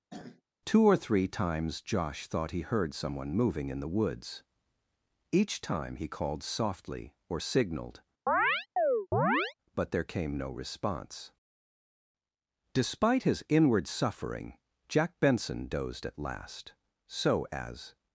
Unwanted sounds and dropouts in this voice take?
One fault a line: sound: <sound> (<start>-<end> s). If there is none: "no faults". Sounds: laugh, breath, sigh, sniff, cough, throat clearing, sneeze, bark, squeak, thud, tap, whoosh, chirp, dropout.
sound: throat clearing (0.1-0.4 s)
sound: chirp (8.3-9.5 s)